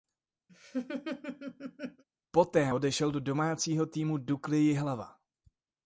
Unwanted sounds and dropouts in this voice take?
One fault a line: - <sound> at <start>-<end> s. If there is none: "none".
- laugh at 0.5-2.0 s